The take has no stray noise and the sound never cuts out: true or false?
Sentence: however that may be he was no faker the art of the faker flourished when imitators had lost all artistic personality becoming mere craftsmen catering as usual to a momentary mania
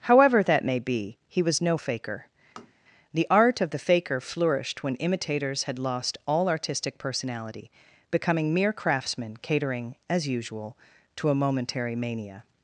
false